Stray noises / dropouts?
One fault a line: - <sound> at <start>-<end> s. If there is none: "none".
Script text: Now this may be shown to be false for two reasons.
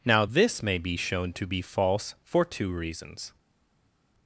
none